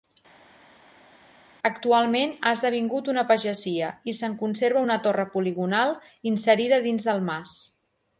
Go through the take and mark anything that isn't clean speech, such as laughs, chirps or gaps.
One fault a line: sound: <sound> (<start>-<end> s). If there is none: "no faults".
no faults